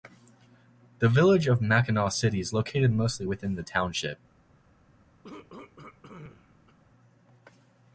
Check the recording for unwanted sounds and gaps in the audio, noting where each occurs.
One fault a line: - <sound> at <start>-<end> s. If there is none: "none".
- throat clearing at 5.2-6.8 s